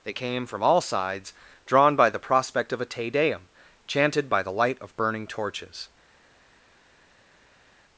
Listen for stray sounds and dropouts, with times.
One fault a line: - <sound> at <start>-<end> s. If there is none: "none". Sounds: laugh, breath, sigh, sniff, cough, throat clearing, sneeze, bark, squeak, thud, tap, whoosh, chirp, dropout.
none